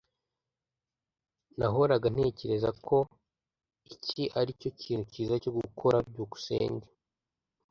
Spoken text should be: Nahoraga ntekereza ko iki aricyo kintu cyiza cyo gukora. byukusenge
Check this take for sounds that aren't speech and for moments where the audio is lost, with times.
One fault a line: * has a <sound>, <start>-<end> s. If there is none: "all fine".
all fine